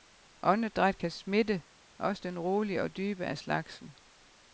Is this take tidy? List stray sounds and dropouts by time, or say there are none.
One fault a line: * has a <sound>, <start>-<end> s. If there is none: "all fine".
all fine